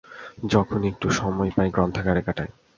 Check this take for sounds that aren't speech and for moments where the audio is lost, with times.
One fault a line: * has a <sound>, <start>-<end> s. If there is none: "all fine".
all fine